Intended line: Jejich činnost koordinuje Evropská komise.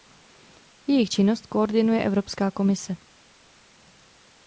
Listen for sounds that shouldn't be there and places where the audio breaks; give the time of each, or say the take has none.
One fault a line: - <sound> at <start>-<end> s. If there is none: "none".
none